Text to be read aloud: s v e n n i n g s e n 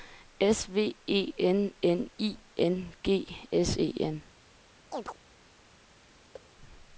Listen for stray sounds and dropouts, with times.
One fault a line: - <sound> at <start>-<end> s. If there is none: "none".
- chirp at 4.9-5.2 s
- thud at 6.3-6.5 s